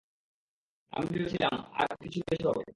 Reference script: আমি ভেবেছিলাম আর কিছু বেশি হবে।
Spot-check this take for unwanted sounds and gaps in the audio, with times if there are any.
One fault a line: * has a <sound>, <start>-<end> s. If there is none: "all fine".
all fine